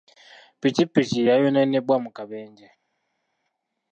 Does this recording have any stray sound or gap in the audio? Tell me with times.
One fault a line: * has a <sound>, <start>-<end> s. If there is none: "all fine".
all fine